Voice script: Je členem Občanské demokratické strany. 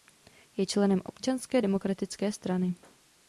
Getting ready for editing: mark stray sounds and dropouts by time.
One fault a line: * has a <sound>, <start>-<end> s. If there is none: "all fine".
all fine